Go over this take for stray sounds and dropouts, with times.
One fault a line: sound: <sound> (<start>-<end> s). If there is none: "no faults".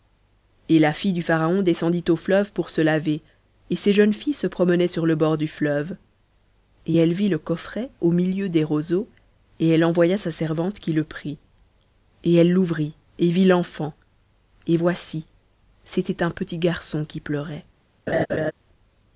sound: laugh (18.1-18.5 s)